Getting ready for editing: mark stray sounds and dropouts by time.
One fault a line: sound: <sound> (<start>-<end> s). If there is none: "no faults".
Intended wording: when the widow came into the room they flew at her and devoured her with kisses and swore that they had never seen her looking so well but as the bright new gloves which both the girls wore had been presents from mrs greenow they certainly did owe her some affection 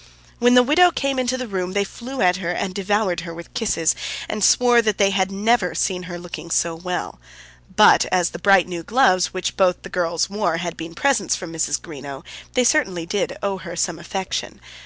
no faults